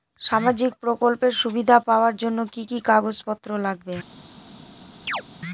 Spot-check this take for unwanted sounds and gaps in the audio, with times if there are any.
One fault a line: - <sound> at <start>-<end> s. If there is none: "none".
- chirp at 5.1-5.2 s